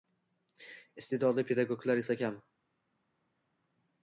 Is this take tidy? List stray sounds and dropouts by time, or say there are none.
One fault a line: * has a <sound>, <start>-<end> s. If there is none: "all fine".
all fine